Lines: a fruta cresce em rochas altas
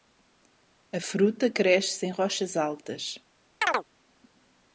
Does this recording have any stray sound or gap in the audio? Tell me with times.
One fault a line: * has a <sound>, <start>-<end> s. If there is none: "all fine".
* has a chirp, 3.6-3.8 s